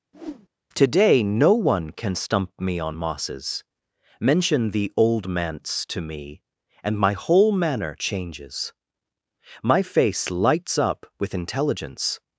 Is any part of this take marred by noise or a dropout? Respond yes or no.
yes